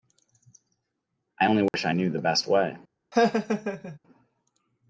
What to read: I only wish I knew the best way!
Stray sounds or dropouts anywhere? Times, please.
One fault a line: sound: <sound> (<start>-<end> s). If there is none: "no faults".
sound: dropout (1.7-1.7 s)
sound: laugh (3.1-4.0 s)